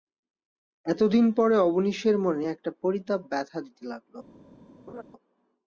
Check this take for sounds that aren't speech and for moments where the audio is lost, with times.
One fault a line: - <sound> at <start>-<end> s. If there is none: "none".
- laugh at 4.9-5.0 s